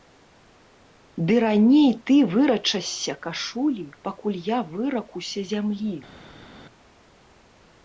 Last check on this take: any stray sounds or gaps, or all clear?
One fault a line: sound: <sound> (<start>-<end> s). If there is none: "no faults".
no faults